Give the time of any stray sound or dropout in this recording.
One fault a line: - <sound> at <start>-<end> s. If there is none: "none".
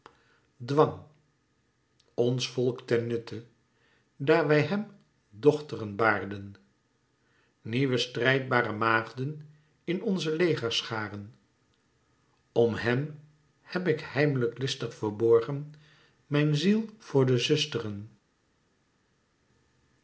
none